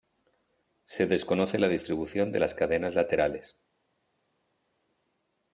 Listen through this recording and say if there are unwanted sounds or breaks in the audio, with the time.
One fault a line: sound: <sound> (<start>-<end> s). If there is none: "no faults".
no faults